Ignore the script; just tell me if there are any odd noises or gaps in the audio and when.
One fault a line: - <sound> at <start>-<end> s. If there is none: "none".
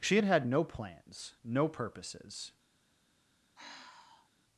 - sigh at 3.6-4.3 s